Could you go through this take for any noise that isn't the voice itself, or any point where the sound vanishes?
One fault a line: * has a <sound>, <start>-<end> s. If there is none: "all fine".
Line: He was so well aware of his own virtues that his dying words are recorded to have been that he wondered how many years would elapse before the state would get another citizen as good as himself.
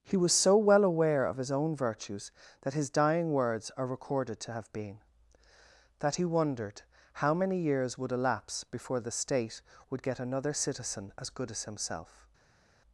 all fine